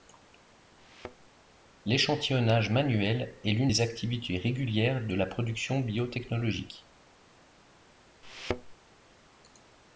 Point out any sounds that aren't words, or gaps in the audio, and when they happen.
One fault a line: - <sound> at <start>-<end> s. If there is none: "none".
- thud at 0.8-1.3 s
- thud at 8.2-8.7 s